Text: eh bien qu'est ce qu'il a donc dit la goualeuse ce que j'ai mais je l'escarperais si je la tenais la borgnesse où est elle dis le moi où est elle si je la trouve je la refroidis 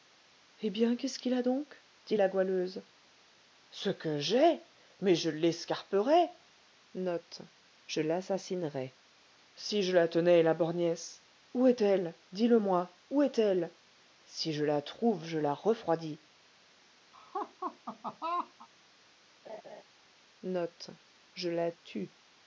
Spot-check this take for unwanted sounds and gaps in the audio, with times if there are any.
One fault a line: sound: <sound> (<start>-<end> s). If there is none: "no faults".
sound: laugh (17.1-18.7 s)
sound: laugh (19.4-19.8 s)